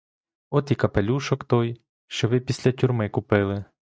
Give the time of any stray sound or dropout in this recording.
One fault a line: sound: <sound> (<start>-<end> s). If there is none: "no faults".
no faults